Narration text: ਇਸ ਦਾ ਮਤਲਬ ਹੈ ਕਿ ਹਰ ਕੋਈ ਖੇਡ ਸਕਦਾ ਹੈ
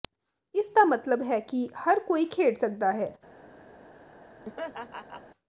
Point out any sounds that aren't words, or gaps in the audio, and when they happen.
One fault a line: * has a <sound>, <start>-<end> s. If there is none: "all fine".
* has a laugh, 4.4-5.2 s